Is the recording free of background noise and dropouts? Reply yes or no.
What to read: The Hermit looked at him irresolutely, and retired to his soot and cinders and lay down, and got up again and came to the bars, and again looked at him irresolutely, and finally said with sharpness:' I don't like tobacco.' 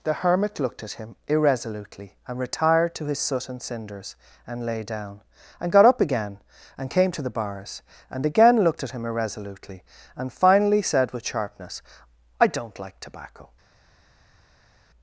yes